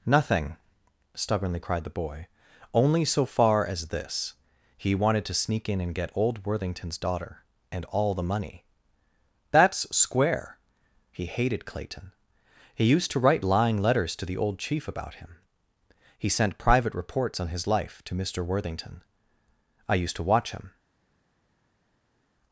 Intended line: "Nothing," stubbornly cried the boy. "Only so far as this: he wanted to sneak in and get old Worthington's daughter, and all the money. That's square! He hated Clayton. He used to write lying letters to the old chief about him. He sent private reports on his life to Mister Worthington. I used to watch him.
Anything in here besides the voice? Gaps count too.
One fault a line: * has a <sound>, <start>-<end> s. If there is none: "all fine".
all fine